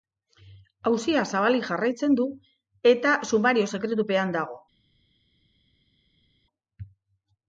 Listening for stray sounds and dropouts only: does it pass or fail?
pass